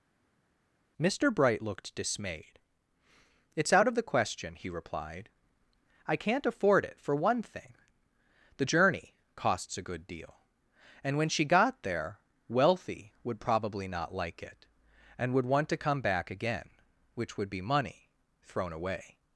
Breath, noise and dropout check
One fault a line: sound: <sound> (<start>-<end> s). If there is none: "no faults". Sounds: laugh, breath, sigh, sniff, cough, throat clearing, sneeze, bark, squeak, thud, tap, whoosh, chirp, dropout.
no faults